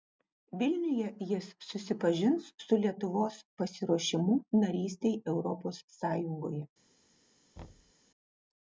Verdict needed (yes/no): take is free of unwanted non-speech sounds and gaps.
no